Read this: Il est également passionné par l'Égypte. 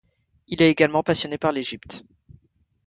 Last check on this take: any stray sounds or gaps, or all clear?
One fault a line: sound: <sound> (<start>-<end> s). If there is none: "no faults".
no faults